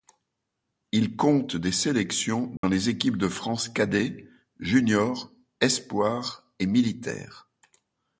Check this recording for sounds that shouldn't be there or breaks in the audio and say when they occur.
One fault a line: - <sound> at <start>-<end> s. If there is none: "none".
- dropout at 2.6-2.6 s